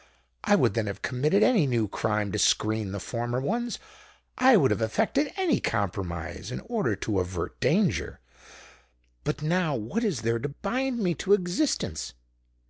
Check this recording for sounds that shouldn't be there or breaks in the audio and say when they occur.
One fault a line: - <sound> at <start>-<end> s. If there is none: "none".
none